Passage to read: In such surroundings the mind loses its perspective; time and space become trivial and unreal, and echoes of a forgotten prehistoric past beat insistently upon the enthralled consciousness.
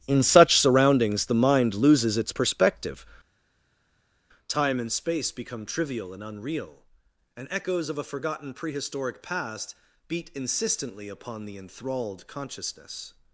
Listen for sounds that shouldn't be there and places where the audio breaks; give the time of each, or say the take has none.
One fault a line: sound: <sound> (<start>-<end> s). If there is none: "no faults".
no faults